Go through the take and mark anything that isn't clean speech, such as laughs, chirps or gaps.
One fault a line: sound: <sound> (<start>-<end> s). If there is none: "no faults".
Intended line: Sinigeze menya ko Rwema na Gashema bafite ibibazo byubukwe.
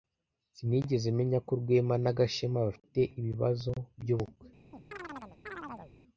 sound: chirp (4.7-5.9 s)